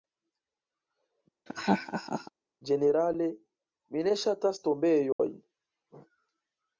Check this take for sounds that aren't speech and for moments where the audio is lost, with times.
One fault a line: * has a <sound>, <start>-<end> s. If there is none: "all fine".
* has a laugh, 1.5-2.3 s
* has a dropout, 5.1-5.2 s